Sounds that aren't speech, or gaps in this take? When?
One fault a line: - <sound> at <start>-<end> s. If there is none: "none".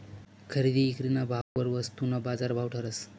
- dropout at 1.4-1.6 s